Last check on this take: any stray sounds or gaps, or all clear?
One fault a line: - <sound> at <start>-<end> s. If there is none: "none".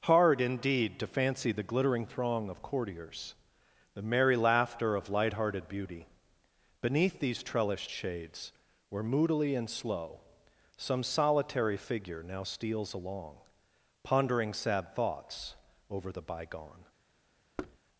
- thud at 17.6-17.8 s